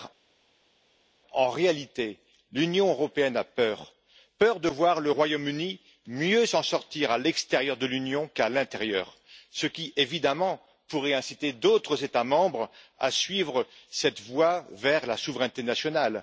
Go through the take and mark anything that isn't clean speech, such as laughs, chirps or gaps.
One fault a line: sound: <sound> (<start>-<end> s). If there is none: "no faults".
no faults